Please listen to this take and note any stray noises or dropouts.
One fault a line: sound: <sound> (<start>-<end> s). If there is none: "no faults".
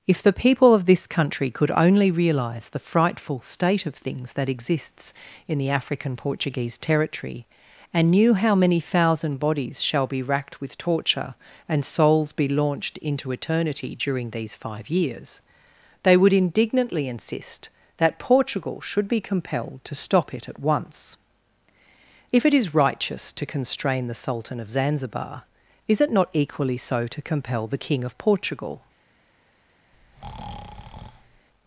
sound: breath (29.9-31.5 s)